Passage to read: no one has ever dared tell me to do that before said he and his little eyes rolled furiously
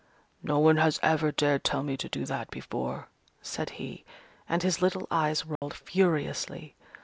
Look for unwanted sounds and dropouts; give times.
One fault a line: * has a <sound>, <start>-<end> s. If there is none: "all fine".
* has a dropout, 5.6-5.6 s